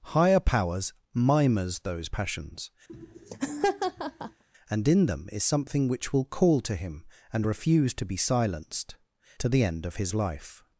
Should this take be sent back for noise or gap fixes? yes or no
yes